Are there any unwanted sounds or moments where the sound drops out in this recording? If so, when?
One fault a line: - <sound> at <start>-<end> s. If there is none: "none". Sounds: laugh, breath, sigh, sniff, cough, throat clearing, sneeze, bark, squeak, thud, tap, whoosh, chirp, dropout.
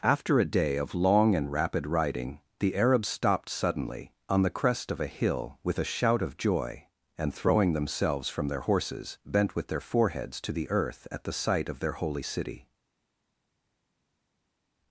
none